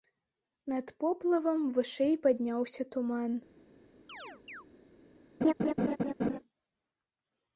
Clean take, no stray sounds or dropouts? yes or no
no